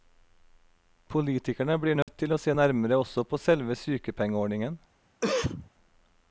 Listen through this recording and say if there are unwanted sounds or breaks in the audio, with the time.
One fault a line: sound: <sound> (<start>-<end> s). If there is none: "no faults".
sound: dropout (2.0-2.1 s)
sound: cough (5.2-5.7 s)